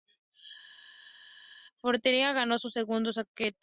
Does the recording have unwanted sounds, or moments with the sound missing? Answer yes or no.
no